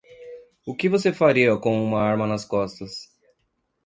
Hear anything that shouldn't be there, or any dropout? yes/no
no